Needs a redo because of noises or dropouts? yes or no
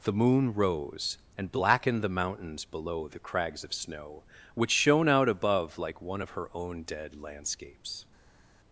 no